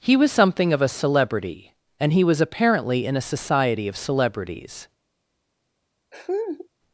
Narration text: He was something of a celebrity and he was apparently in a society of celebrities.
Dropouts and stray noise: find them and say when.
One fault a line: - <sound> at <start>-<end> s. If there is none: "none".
- laugh at 6.1-6.7 s